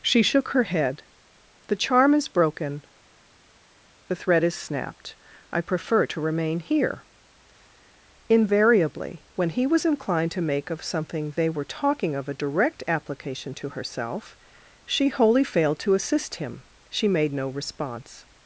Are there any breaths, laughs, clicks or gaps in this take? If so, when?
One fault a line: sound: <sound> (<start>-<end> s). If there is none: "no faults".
no faults